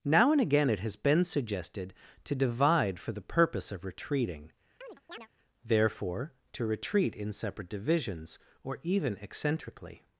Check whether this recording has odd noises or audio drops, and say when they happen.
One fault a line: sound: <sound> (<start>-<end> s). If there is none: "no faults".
sound: chirp (4.8-5.3 s)